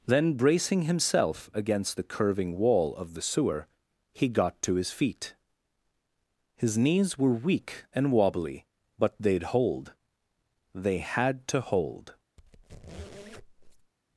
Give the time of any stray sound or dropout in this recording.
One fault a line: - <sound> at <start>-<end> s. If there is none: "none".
- squeak at 12.4-13.9 s